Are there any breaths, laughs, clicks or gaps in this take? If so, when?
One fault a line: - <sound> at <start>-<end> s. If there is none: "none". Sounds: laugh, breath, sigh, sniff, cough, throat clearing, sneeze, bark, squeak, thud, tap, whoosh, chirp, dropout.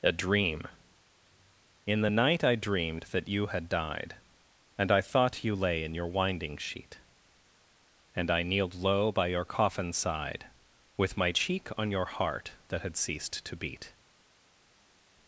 none